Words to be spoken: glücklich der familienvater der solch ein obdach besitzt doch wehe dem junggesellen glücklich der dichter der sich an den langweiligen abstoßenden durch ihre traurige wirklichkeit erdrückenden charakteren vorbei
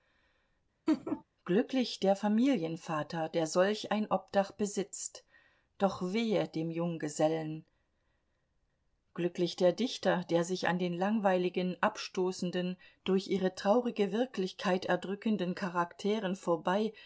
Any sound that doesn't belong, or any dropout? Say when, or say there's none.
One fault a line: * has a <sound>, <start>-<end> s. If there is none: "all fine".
* has a laugh, 0.9-1.2 s